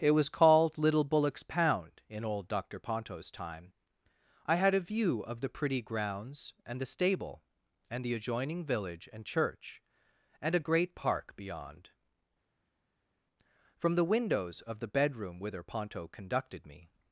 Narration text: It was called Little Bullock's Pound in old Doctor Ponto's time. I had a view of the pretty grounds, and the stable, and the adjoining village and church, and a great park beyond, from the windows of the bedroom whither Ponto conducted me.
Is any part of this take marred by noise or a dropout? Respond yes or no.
no